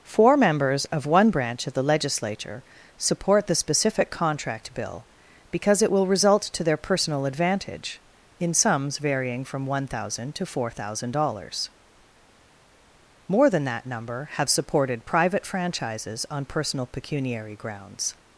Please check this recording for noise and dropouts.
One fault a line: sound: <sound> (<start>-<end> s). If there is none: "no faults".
no faults